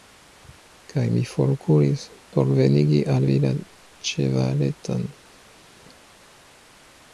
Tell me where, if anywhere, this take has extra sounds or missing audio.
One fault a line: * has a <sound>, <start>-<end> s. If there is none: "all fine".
all fine